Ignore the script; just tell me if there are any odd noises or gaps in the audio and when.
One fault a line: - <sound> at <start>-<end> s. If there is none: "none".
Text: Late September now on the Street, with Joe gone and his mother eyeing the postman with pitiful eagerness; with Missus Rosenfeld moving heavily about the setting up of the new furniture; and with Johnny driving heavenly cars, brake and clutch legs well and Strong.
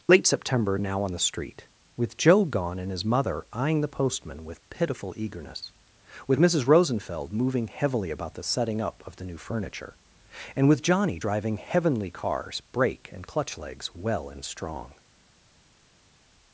none